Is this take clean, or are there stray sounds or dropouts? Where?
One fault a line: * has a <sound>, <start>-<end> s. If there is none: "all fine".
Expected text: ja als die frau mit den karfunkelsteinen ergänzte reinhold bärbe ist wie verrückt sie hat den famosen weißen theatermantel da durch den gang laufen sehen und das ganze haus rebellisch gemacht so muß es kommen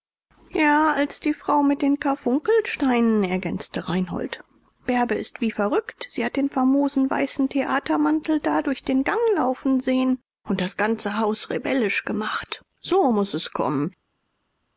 all fine